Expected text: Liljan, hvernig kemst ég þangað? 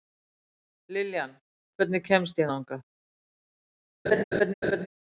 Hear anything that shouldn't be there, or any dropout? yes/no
yes